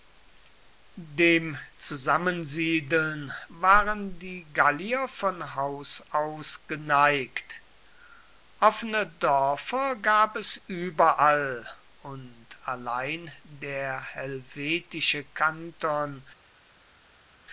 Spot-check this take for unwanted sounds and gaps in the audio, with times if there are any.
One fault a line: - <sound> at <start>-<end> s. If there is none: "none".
none